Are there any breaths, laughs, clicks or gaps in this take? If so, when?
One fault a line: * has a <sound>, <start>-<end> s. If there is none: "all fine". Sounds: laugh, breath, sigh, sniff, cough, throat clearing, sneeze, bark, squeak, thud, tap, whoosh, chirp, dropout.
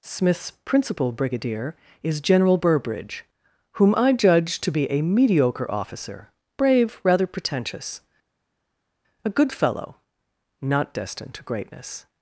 all fine